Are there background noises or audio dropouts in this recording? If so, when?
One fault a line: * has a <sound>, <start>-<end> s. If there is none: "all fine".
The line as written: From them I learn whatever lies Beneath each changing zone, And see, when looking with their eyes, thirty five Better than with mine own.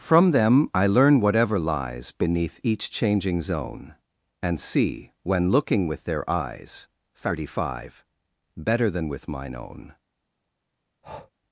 * has a breath, 11.0-11.3 s